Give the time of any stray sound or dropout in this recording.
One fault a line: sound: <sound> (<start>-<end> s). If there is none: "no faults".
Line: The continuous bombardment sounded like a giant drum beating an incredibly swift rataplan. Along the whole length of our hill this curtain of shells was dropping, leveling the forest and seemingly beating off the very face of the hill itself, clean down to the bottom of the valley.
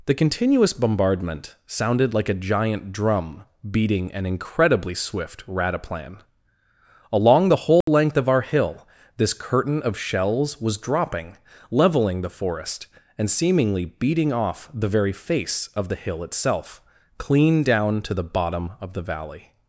sound: dropout (7.8-7.9 s)